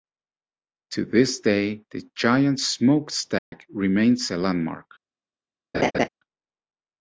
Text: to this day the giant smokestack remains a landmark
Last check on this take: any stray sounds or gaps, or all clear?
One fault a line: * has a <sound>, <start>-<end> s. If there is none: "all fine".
* has a dropout, 3.4-3.5 s
* has a laugh, 5.7-6.1 s